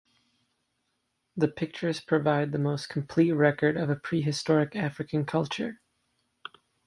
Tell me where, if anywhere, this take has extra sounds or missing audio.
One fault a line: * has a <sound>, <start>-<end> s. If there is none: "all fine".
all fine